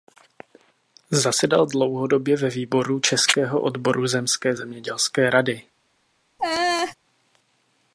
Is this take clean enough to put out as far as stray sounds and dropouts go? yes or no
no